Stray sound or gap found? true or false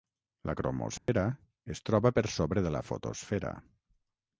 true